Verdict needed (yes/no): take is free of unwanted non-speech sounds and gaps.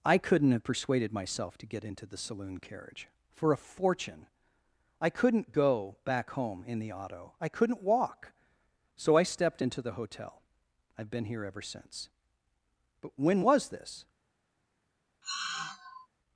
no